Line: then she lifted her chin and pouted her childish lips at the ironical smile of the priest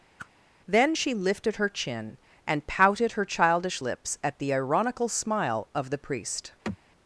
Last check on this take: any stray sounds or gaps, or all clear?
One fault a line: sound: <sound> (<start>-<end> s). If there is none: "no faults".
sound: whoosh (0.2-0.3 s)
sound: sigh (6.6-6.8 s)